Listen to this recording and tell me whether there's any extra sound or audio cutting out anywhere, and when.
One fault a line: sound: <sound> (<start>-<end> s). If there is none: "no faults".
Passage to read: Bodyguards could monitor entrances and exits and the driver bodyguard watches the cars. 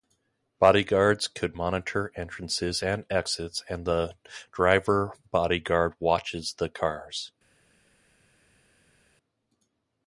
no faults